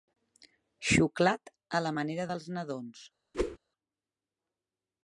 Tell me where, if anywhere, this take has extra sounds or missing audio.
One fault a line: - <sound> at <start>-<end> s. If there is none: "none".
- whoosh at 3.3-3.6 s